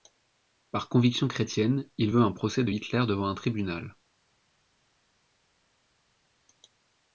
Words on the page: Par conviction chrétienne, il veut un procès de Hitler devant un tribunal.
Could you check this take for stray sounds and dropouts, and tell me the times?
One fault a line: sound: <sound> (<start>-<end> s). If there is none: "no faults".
no faults